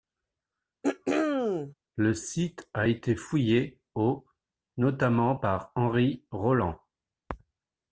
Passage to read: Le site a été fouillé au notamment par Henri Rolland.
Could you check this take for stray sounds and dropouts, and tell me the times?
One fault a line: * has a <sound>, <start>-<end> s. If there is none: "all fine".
* has a throat clearing, 0.8-1.7 s